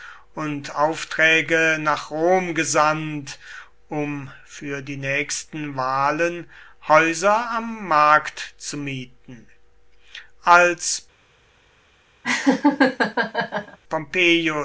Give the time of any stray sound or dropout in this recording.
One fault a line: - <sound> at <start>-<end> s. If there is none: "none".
- laugh at 12.2-13.8 s